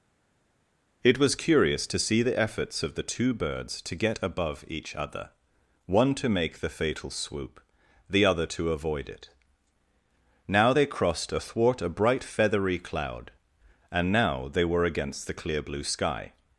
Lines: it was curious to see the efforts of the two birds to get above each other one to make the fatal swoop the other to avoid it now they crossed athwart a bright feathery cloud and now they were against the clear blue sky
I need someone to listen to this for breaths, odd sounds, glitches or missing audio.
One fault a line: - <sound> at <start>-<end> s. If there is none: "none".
none